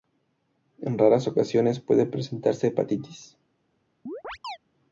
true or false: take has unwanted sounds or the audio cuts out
true